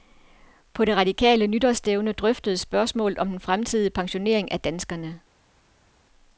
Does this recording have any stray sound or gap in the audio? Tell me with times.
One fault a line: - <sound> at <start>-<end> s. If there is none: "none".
none